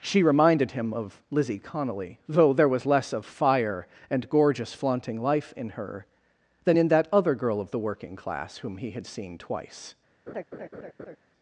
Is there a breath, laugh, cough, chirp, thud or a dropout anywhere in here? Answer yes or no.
yes